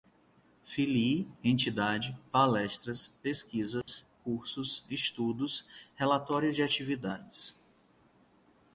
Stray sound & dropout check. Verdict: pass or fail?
fail